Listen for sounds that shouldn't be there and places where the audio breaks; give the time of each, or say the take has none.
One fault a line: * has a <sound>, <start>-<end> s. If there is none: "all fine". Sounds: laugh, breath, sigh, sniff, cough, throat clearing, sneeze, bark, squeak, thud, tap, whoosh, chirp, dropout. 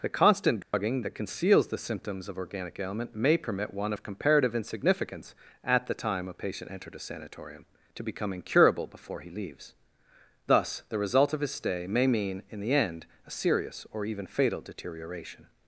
* has a dropout, 0.6-0.7 s